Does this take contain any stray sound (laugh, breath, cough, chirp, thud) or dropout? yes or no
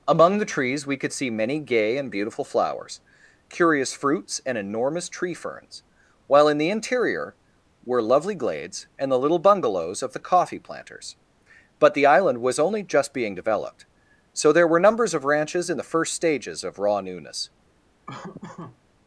yes